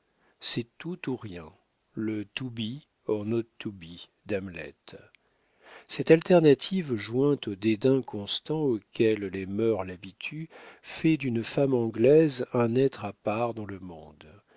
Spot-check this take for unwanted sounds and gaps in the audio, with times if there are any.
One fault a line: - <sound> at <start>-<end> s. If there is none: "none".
none